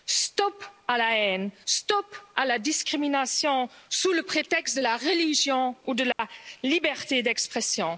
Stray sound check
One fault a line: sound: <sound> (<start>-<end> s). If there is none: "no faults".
sound: dropout (6.1-6.2 s)